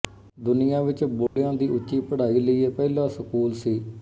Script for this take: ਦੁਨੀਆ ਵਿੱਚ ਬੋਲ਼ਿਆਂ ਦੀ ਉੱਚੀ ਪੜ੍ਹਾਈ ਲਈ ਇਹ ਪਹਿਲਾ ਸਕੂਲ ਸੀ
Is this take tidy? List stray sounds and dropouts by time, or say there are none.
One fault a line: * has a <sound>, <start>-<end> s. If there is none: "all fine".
* has a dropout, 1.3-1.4 s